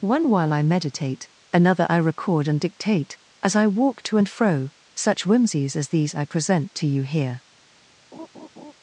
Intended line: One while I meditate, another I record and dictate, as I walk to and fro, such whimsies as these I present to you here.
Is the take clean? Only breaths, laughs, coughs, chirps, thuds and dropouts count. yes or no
no